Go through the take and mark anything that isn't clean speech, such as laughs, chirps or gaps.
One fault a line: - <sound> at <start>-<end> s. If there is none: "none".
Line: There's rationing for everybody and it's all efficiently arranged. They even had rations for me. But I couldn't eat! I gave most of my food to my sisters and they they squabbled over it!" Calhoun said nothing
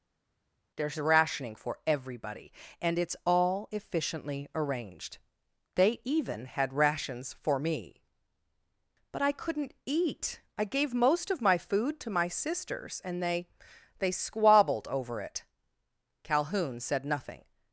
none